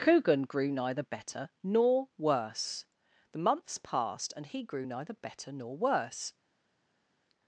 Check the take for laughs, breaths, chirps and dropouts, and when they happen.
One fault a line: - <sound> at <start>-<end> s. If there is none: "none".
none